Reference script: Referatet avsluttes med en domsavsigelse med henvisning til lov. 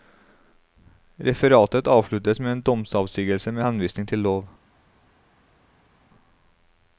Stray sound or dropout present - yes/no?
no